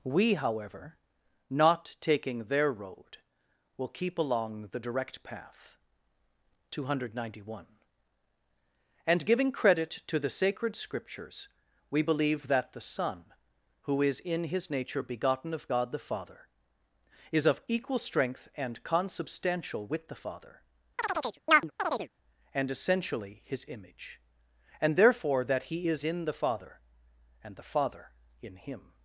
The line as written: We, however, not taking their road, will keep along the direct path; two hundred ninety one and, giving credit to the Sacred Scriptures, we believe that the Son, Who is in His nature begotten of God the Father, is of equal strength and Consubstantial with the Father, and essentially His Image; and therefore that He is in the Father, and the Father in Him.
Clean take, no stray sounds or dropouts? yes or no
no